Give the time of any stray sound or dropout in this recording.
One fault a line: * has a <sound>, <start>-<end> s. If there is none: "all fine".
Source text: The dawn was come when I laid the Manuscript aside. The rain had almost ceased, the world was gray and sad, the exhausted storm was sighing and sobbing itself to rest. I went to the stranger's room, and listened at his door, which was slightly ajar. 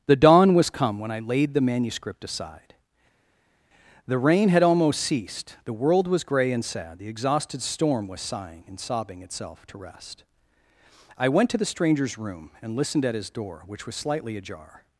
all fine